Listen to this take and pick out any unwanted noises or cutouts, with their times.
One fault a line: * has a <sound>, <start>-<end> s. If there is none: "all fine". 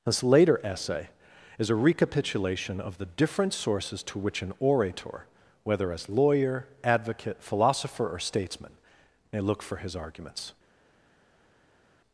all fine